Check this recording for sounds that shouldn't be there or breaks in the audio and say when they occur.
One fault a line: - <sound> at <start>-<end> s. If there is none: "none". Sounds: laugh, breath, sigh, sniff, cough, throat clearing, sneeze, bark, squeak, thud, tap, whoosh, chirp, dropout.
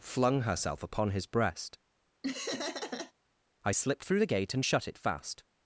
- laugh at 2.2-3.1 s